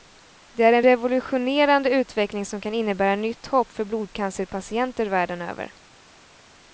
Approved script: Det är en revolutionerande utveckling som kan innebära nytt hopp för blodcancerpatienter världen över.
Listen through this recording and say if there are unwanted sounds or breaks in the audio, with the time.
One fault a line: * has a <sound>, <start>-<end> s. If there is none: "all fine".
all fine